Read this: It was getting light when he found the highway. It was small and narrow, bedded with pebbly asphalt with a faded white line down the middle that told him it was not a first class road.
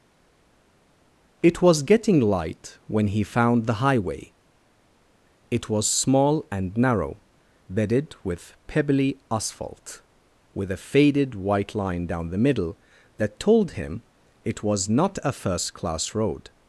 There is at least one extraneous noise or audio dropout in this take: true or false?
false